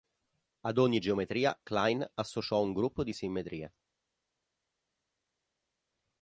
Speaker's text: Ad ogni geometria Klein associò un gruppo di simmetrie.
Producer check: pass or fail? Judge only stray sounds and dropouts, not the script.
pass